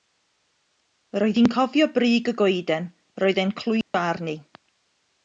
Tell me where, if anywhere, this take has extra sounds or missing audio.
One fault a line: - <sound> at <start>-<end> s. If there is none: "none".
- dropout at 3.8-3.9 s